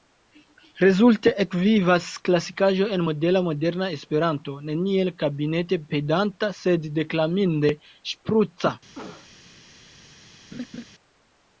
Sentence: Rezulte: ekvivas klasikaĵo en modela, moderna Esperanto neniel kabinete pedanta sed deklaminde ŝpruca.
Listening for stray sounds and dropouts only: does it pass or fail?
fail